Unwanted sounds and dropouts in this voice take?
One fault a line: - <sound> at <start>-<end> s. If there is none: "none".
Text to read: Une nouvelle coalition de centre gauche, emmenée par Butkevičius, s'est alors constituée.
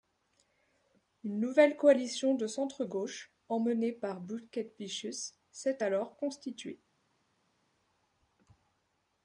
none